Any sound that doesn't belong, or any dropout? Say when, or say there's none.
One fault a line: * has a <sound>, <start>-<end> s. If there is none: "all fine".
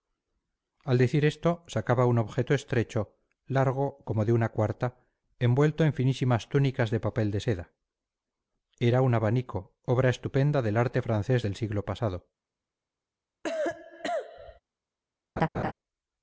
* has a cough, 13.4-14.6 s
* has a laugh, 15.4-15.7 s